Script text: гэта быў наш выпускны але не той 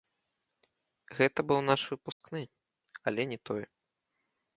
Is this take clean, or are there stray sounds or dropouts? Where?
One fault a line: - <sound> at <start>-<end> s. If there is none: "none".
- dropout at 2.1-2.2 s